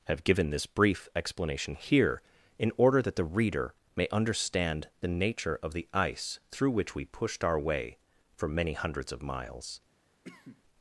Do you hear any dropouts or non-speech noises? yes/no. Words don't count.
yes